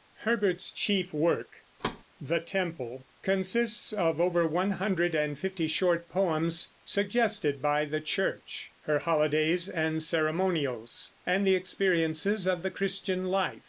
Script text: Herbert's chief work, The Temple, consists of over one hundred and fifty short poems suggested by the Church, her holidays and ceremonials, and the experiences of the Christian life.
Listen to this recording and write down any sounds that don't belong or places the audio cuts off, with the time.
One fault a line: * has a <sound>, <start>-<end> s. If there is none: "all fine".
* has a thud, 1.8-2.0 s